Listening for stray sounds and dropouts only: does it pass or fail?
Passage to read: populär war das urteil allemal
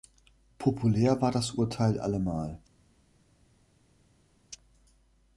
pass